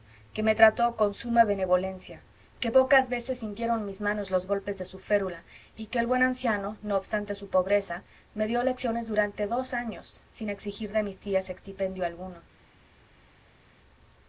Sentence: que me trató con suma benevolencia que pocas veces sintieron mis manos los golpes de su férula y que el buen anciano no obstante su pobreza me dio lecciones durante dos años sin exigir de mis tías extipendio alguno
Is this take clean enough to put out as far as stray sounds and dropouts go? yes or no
yes